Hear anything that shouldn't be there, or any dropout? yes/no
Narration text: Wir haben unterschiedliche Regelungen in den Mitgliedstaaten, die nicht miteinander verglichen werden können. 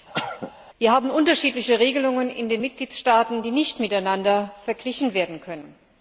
yes